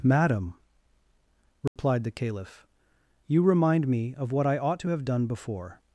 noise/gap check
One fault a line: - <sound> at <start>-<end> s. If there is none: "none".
- dropout at 1.7-1.8 s